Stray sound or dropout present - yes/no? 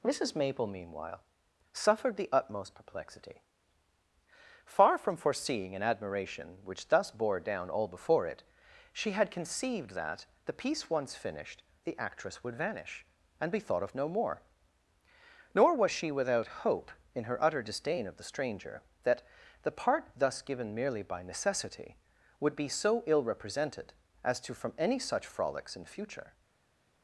no